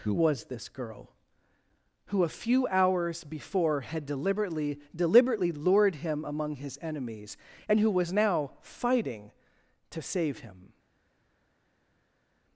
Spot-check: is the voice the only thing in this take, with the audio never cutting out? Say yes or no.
yes